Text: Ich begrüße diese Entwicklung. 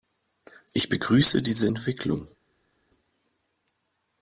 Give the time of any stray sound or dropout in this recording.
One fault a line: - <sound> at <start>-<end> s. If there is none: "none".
none